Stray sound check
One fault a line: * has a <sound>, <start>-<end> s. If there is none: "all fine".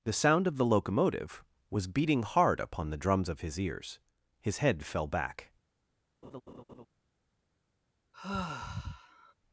* has a laugh, 6.2-6.9 s
* has a sigh, 8.1-9.3 s